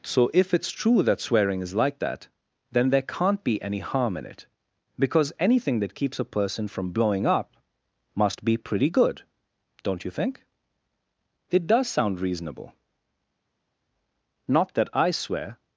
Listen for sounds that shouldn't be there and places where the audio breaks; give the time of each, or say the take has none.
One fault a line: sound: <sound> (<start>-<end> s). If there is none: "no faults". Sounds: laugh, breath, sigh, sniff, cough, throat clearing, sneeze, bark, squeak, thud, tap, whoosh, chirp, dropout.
no faults